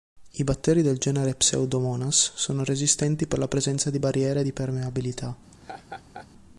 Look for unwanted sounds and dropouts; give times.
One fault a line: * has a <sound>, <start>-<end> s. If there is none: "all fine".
* has a laugh, 5.5-6.3 s